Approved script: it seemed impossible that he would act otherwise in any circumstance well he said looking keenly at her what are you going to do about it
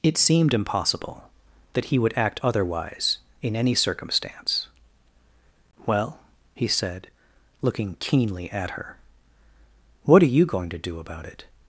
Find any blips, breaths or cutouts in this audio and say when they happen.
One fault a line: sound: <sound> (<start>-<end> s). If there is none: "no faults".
no faults